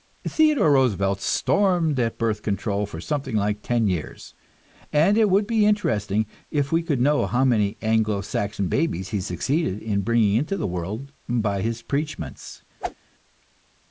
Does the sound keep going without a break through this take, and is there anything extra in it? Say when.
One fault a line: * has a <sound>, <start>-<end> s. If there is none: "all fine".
* has a whoosh, 12.8-13.0 s